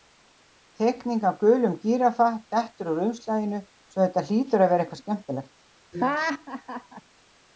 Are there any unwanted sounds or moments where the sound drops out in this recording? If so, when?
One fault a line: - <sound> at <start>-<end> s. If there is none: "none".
- laugh at 5.9-7.0 s